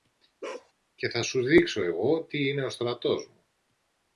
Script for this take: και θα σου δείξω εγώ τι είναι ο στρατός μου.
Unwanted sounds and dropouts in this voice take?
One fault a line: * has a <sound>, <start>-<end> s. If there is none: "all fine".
* has a bark, 0.4-0.7 s